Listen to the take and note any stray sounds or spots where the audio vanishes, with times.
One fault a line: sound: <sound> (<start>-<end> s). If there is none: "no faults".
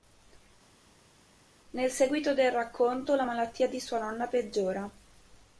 no faults